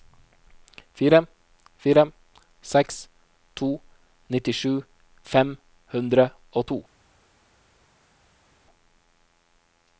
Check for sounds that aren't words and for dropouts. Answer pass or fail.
pass